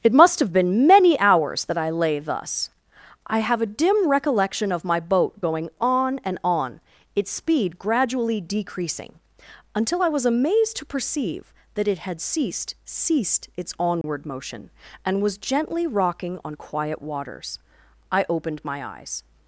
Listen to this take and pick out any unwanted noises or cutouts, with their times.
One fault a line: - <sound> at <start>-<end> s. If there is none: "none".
- dropout at 14.0-14.0 s